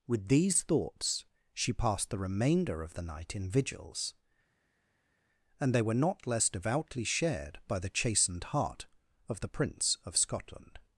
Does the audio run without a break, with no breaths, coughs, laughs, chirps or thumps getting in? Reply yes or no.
yes